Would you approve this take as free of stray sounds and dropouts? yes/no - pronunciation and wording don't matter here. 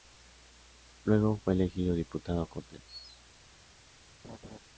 no